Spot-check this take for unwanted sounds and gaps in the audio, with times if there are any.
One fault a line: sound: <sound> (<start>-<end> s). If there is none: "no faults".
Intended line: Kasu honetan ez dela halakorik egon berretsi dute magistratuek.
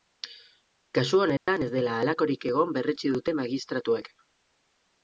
sound: dropout (1.4-1.5 s)